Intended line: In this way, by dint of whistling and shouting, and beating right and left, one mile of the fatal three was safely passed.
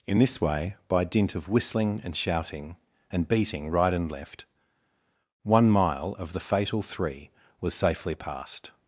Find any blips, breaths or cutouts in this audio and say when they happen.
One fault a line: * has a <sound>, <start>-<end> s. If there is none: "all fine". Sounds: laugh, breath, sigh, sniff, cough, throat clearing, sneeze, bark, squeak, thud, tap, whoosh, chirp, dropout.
all fine